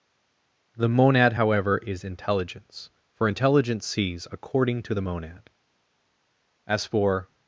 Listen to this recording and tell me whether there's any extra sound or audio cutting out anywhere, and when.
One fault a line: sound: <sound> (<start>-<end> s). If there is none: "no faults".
no faults